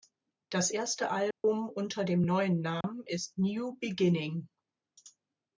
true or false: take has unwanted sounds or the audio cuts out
true